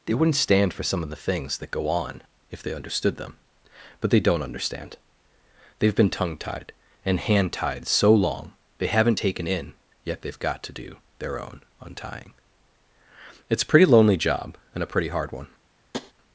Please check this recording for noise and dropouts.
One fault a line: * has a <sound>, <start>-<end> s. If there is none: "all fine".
* has a tap, 15.9-16.1 s